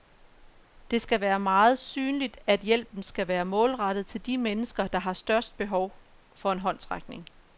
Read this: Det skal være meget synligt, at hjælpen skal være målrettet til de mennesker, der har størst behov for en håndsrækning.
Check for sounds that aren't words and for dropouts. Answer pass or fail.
pass